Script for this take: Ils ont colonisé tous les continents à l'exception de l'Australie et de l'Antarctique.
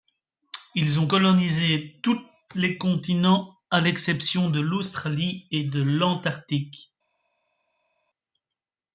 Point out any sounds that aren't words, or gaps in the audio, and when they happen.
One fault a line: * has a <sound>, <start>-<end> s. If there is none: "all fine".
all fine